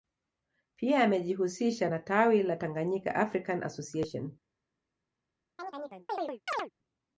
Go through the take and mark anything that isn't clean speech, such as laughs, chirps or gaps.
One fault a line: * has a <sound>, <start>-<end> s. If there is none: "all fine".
* has a chirp, 5.6-6.7 s